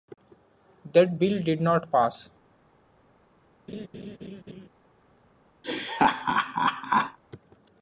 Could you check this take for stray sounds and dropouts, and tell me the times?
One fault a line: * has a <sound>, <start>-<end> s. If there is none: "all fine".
* has a laugh, 3.7-4.7 s
* has a laugh, 5.6-7.2 s